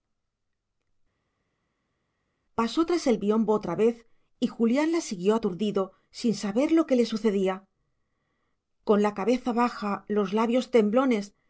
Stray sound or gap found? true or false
false